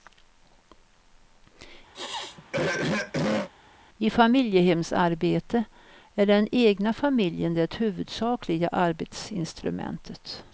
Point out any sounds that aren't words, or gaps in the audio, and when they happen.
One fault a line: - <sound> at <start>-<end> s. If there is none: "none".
- throat clearing at 1.9-3.5 s